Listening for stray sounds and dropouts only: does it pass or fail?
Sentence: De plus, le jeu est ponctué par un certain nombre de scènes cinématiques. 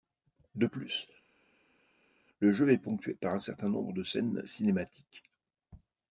pass